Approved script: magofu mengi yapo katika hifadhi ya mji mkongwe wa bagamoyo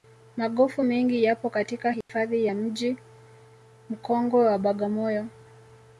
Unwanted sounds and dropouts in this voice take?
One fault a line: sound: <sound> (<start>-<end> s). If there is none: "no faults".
sound: dropout (2.0-2.1 s)